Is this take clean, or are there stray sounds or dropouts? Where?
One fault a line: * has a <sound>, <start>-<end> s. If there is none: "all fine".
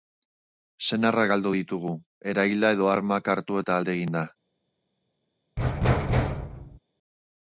* has a thud, 5.6-6.8 s